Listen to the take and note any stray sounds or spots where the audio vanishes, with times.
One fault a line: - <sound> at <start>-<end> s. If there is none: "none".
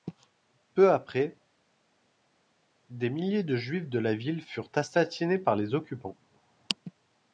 none